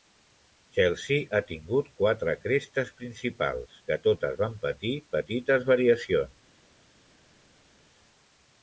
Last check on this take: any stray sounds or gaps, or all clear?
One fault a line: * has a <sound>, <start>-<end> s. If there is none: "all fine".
all fine